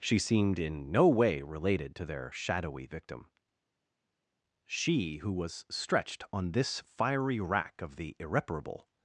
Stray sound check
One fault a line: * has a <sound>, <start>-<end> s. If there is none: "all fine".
all fine